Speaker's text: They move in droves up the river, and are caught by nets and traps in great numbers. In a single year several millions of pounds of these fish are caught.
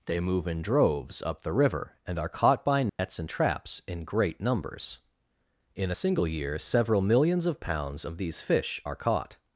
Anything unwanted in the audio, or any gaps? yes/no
yes